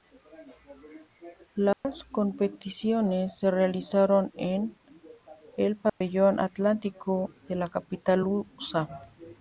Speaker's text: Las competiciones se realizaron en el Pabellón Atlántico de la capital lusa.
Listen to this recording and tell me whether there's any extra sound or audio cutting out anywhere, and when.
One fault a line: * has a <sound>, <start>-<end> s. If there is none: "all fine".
* has a dropout, 1.7-1.8 s
* has a dropout, 5.9-6.0 s